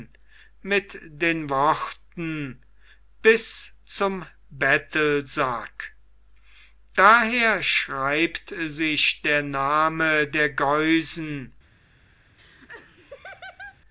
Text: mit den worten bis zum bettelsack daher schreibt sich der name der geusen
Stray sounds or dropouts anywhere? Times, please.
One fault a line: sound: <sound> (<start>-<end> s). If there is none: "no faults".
sound: laugh (12.4-13.8 s)